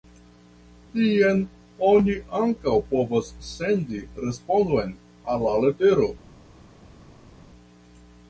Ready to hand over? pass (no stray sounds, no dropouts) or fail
pass